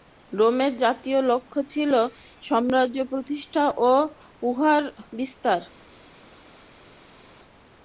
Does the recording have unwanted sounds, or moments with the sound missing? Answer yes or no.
no